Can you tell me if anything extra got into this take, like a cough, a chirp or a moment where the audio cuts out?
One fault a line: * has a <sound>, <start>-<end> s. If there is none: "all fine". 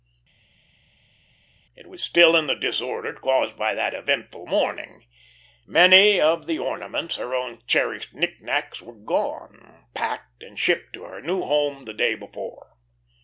all fine